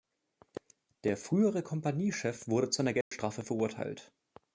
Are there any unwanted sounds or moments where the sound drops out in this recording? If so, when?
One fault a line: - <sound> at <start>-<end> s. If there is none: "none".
- dropout at 3.0-3.1 s